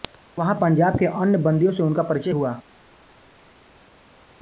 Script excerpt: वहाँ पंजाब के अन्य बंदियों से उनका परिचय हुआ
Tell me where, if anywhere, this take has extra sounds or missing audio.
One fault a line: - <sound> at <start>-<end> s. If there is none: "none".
none